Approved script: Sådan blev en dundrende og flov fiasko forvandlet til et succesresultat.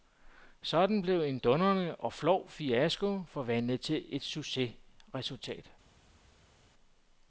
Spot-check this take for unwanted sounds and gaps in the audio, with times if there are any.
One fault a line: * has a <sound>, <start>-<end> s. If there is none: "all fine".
all fine